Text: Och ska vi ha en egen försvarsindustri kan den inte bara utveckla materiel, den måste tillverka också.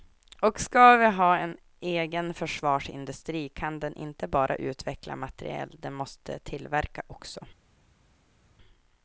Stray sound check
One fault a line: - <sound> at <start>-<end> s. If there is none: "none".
none